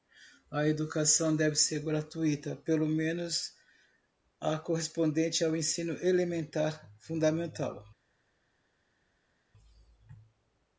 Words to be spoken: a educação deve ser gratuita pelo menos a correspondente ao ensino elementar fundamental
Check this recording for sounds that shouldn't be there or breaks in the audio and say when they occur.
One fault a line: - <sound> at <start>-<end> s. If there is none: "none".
none